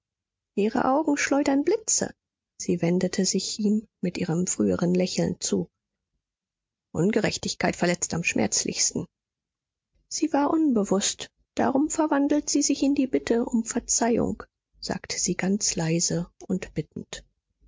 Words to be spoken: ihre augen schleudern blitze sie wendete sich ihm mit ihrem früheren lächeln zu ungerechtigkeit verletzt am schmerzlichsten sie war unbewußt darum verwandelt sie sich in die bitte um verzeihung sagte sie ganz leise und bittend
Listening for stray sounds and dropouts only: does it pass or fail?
pass